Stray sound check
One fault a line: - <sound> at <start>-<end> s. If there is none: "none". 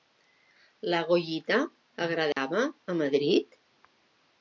- dropout at 2.3-2.4 s